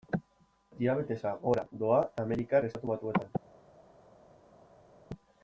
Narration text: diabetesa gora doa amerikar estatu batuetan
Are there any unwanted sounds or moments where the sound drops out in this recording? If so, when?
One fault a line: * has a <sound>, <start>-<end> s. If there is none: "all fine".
all fine